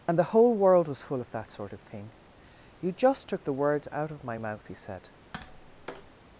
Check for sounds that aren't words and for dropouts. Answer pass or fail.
fail